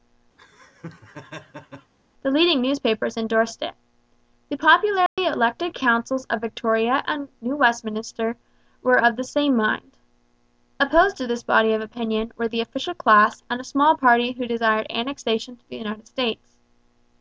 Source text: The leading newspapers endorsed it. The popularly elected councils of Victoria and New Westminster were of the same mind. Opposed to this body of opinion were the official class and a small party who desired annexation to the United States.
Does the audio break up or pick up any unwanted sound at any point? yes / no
yes